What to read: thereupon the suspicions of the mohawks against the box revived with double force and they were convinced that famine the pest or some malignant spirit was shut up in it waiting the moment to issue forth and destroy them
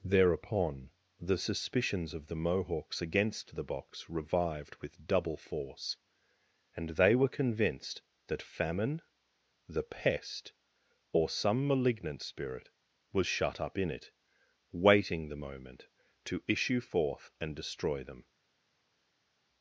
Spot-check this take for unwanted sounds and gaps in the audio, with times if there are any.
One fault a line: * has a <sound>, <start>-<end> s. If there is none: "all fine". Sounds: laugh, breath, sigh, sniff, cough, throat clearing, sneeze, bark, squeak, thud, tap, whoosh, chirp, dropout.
all fine